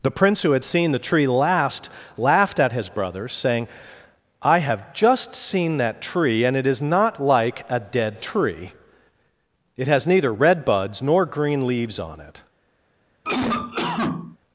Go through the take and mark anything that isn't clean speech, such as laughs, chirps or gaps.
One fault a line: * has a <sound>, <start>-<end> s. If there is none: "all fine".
* has a cough, 13.2-14.4 s